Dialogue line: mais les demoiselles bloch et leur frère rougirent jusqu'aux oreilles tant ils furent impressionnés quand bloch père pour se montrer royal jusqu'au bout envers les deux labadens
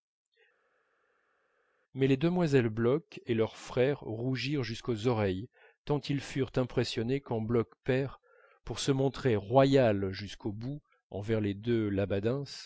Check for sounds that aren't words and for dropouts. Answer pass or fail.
pass